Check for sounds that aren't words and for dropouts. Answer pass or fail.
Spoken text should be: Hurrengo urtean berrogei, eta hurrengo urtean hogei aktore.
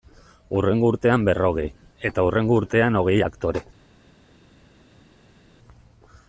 pass